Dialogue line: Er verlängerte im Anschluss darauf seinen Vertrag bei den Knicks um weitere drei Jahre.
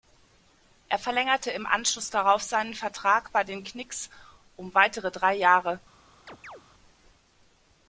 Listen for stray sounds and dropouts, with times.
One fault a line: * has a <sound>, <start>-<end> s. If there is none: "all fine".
* has a chirp, 6.3-6.6 s